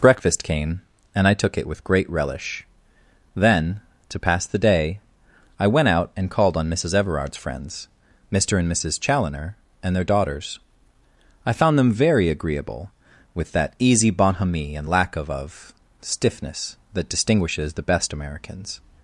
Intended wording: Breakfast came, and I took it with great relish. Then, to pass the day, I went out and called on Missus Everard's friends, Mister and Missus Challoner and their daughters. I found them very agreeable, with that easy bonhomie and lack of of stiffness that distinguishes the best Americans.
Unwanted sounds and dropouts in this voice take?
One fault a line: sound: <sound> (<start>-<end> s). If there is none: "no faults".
no faults